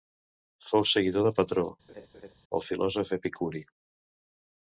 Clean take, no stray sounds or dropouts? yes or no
no